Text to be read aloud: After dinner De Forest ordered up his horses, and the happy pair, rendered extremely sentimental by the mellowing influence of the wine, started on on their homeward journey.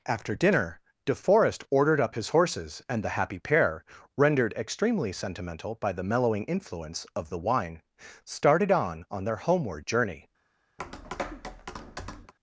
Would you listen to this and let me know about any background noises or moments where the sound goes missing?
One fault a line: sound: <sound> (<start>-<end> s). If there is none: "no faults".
sound: tap (10.8-12.3 s)